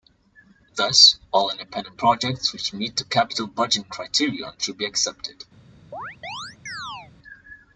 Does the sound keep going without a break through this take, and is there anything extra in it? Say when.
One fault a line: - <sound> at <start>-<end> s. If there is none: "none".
- chirp at 5.9-7.1 s